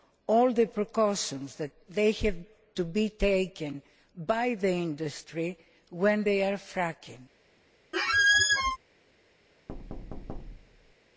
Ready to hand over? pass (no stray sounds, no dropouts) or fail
fail